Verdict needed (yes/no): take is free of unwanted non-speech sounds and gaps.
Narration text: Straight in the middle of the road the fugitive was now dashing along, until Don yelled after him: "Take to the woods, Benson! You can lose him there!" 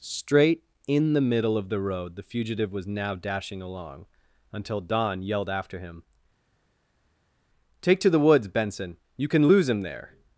yes